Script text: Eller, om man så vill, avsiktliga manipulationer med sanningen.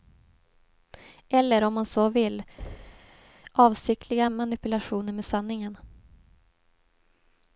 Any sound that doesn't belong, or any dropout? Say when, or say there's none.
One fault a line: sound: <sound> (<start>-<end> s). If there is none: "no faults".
sound: thud (2.6-3.3 s)